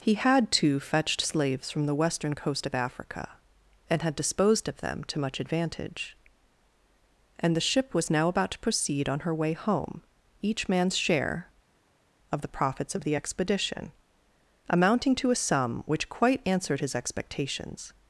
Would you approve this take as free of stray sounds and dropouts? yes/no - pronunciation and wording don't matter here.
yes